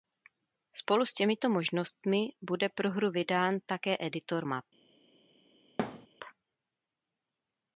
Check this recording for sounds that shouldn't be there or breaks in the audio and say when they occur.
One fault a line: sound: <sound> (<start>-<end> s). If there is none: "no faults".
sound: thud (5.8-6.1 s)